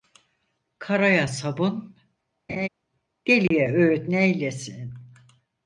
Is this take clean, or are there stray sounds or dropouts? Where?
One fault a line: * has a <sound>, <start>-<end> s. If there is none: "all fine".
* has a laugh, 2.5-2.7 s
* has a dropout, 3.5-3.5 s